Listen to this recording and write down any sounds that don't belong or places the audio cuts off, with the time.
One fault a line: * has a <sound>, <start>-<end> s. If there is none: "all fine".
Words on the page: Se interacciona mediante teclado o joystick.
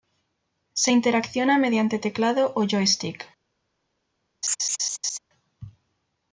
* has a laugh, 4.4-5.2 s